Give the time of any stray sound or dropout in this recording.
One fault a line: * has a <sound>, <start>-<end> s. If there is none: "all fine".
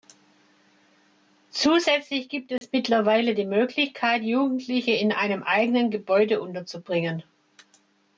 * has a dropout, 2.6-2.6 s